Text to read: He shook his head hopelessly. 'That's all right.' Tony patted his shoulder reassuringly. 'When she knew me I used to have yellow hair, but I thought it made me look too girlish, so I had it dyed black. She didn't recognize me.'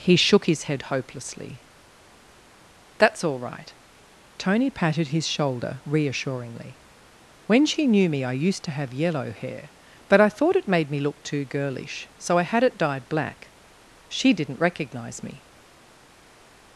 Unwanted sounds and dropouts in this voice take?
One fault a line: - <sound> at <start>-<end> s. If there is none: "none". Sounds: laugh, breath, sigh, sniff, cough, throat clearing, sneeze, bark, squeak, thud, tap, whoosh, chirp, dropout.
none